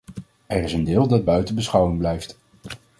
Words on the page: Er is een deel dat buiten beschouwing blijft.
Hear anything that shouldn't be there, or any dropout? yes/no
no